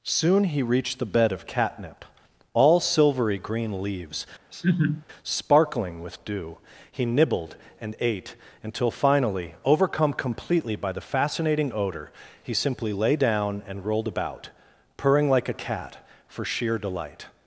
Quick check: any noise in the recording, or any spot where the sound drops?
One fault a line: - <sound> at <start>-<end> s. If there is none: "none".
- laugh at 4.5-5.0 s